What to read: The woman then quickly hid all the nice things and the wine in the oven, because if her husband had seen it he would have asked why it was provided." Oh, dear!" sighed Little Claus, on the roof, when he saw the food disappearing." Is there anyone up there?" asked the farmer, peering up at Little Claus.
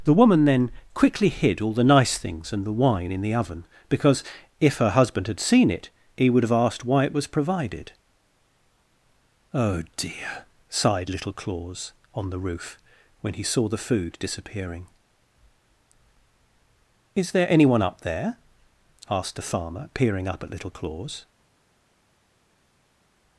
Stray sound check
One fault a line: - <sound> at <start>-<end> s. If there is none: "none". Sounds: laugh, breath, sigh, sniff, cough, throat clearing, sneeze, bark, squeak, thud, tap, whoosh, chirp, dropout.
none